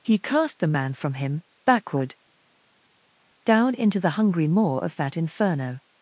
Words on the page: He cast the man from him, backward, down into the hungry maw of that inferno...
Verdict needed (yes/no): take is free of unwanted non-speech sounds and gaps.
yes